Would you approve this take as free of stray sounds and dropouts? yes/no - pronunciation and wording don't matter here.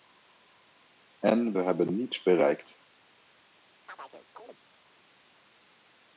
no